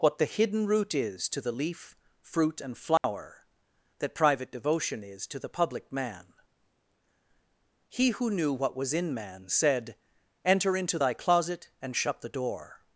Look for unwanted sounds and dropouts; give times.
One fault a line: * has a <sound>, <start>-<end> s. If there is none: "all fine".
* has a dropout, 3.0-3.0 s